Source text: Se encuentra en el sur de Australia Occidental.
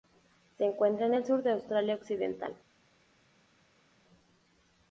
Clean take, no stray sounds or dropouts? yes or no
yes